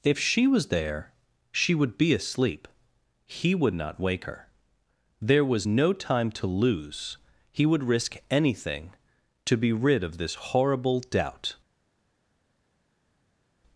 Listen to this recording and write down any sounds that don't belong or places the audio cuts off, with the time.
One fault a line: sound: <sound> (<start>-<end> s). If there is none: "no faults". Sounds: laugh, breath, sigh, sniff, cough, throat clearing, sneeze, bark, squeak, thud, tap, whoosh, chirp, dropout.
no faults